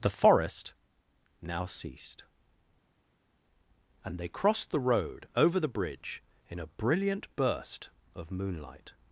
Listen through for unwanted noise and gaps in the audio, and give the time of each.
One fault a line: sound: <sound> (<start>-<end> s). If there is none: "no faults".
no faults